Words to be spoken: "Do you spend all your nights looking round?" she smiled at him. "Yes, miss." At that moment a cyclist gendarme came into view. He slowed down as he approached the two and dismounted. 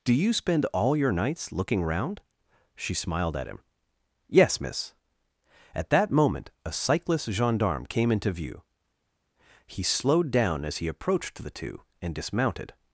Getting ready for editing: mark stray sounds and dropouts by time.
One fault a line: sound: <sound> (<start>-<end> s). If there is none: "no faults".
no faults